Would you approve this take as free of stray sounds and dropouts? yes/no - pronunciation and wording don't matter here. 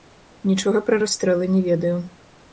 yes